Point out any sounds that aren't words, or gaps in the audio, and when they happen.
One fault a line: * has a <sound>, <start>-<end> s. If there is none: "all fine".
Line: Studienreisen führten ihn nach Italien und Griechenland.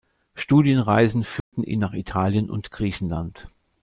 * has a dropout, 1.4-1.5 s